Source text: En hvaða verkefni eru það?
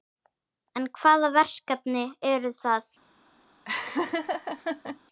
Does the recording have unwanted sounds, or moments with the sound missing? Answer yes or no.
yes